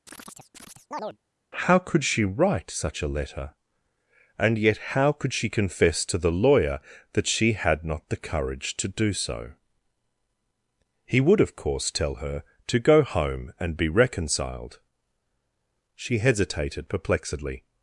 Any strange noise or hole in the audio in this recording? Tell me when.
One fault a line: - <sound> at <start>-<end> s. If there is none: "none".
- chirp at 0.1-1.2 s